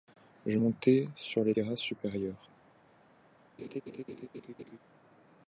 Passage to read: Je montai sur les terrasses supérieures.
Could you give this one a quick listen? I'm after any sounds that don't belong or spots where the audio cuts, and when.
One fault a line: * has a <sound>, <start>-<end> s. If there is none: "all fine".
* has a laugh, 3.6-4.8 s